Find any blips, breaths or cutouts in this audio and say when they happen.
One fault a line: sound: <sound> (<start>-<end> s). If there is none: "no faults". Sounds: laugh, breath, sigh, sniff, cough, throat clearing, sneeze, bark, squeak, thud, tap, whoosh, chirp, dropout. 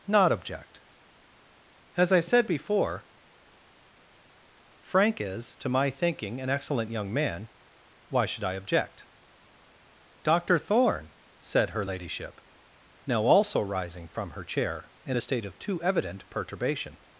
no faults